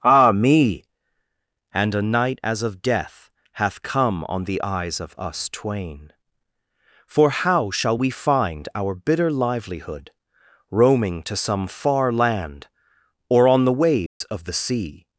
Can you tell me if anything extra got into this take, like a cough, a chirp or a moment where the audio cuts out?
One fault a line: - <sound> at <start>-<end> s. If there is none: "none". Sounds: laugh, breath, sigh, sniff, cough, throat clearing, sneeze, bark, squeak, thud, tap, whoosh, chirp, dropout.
- dropout at 14.1-14.2 s